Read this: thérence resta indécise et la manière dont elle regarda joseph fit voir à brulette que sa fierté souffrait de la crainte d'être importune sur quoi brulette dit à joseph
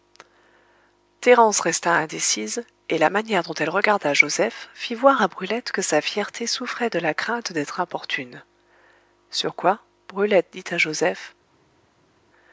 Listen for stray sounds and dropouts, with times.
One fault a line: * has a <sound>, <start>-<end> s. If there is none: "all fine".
all fine